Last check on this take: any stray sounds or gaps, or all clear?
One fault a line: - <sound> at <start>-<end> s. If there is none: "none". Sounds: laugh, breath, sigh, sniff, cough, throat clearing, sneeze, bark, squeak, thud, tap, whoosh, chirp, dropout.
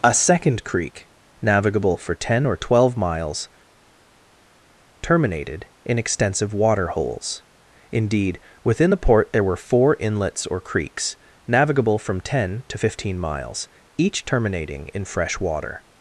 none